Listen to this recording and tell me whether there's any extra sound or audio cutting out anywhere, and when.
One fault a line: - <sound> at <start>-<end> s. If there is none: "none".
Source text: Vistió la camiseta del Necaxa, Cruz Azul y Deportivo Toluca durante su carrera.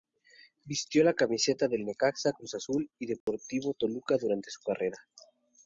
- dropout at 3.2-3.3 s